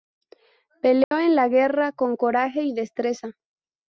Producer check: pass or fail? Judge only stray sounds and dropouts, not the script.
fail